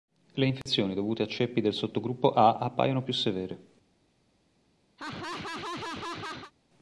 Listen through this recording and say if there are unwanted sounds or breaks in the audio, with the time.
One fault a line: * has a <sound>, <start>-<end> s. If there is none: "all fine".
* has a dropout, 0.6-0.7 s
* has a laugh, 5.0-6.5 s